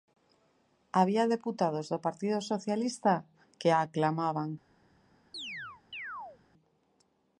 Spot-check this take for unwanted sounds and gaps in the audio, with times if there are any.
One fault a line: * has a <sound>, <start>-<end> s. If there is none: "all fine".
* has a chirp, 5.3-6.4 s